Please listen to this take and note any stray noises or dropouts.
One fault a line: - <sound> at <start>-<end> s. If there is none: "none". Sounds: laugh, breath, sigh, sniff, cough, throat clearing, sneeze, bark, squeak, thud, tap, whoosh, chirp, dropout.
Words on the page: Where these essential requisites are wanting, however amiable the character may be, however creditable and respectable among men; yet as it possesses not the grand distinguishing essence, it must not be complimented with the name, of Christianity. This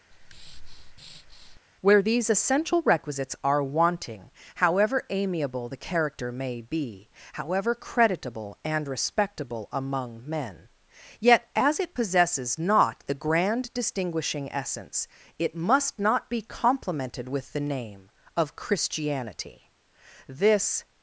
- breath at 0.1-1.6 s